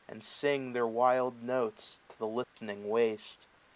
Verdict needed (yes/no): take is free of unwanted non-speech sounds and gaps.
no